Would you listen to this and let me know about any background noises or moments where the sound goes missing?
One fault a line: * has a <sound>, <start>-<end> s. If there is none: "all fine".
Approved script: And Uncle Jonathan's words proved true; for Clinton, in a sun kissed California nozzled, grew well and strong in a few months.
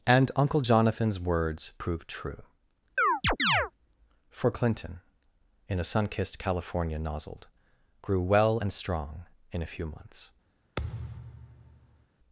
* has a chirp, 3.0-3.7 s
* has a thud, 10.8-12.1 s